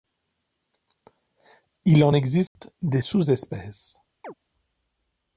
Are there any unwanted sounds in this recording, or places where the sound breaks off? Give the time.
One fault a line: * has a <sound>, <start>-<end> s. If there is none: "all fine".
* has a dropout, 2.5-2.6 s
* has a chirp, 4.2-4.3 s